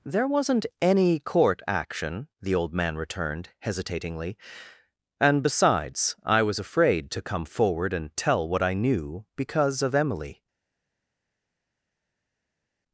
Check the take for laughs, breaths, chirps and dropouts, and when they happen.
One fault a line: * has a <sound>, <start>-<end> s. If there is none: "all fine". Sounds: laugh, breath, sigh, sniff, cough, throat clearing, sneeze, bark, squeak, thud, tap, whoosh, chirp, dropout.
all fine